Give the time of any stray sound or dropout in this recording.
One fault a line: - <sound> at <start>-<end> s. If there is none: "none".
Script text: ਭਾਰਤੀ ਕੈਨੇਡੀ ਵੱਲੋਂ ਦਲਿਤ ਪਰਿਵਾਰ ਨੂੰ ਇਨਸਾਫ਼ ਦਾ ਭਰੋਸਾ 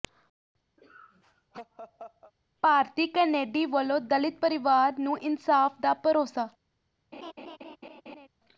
- laugh at 0.8-2.3 s
- laugh at 7.1-8.3 s